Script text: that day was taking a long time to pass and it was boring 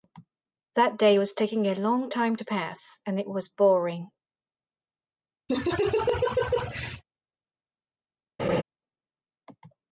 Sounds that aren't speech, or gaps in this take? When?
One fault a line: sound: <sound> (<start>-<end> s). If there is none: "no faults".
sound: laugh (5.5-7.0 s)
sound: laugh (8.4-8.6 s)